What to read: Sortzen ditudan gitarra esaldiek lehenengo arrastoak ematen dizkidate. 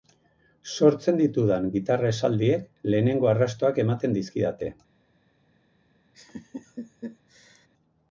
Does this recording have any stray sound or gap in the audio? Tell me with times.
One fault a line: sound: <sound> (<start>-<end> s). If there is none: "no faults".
sound: laugh (6.1-7.7 s)